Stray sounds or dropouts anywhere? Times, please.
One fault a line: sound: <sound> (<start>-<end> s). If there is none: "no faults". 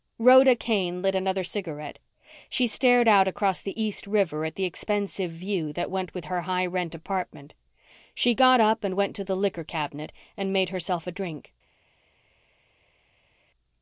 no faults